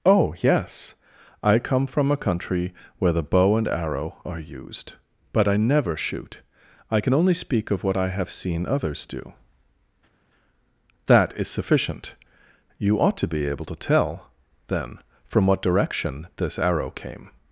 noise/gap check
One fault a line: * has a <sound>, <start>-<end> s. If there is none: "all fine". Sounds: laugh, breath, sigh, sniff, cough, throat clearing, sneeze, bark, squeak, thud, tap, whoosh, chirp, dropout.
all fine